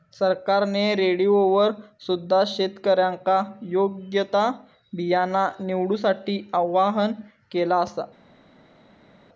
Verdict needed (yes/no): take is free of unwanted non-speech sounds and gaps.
yes